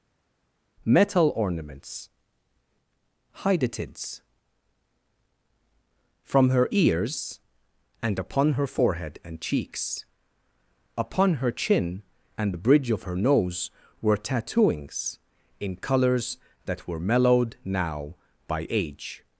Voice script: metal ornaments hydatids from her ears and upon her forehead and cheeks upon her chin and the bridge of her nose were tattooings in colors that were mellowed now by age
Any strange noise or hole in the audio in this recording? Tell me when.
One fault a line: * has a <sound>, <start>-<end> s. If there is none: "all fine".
all fine